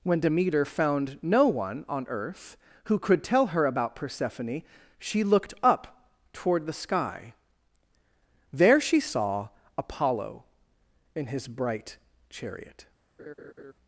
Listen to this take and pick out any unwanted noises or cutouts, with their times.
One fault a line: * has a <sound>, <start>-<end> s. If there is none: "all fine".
* has a laugh, 13.2-13.7 s